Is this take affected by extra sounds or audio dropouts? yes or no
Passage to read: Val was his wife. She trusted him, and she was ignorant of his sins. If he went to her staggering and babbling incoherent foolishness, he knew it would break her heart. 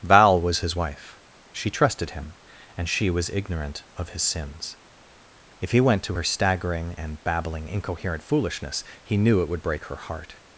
no